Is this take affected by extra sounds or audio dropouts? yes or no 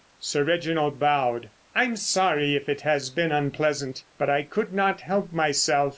no